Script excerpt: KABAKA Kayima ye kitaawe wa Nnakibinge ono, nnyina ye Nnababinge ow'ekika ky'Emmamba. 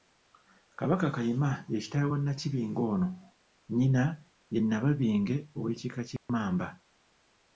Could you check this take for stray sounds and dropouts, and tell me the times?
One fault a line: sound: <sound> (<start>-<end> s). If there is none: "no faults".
sound: dropout (6.2-6.3 s)